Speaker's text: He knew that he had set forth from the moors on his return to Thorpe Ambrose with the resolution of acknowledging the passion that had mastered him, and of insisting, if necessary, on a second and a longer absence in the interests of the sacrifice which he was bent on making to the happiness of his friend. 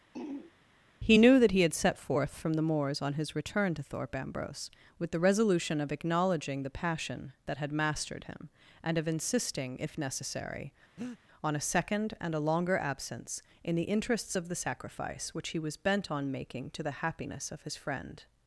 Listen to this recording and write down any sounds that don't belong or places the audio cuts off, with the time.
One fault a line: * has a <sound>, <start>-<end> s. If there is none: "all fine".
* has a throat clearing, 0.1-0.5 s
* has a breath, 11.0-11.2 s